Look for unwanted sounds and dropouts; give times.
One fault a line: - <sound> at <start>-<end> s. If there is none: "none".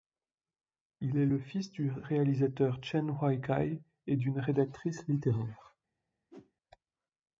- whoosh at 6.3-6.5 s